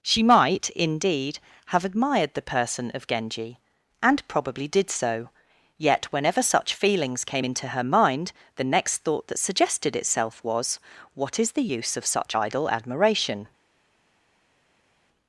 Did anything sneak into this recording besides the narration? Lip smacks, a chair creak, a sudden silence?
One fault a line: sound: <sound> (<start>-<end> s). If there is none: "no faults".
no faults